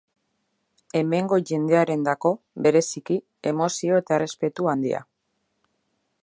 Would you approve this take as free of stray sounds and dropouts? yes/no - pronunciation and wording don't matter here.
yes